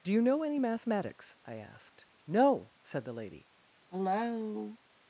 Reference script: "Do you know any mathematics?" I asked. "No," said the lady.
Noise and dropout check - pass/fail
fail